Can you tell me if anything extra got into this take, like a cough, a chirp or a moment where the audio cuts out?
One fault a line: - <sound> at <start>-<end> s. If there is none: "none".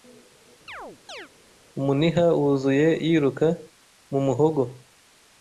- chirp at 0.7-1.3 s